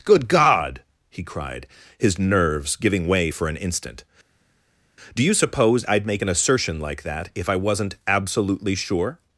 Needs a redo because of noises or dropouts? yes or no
no